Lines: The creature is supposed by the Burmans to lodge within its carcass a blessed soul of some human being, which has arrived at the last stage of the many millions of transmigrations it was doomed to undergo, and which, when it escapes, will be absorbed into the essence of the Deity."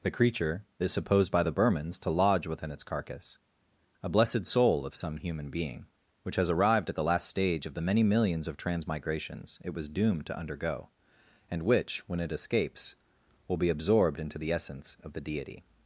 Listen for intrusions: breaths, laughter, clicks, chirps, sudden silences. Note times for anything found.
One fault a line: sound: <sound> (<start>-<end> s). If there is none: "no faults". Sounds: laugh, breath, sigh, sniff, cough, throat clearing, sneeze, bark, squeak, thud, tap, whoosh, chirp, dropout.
no faults